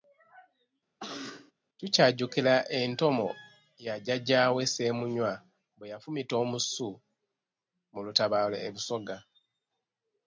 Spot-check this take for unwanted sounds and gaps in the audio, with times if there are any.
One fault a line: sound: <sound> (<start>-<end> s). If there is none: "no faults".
sound: cough (1.0-1.5 s)